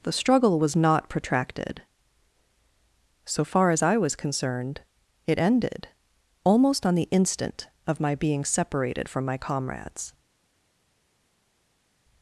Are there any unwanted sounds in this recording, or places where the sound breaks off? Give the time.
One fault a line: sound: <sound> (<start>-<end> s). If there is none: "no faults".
no faults